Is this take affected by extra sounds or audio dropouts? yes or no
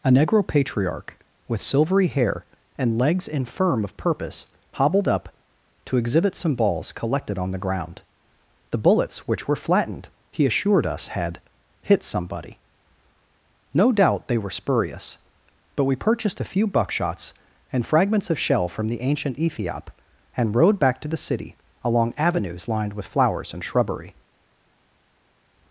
no